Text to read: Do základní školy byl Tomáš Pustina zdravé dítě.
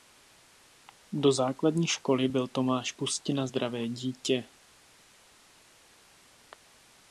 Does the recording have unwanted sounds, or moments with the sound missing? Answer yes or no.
no